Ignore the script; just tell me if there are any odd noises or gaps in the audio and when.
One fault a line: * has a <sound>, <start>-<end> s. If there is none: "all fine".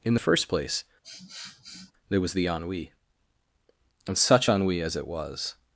* has a sniff, 1.0-1.9 s